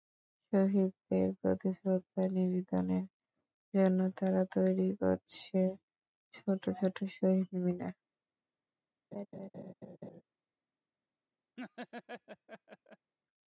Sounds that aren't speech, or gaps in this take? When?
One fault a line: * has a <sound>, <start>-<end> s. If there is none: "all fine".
* has a laugh, 9.1-10.2 s
* has a laugh, 11.6-13.1 s